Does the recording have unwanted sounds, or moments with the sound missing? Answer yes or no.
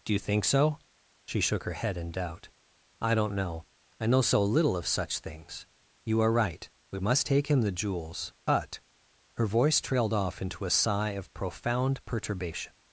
no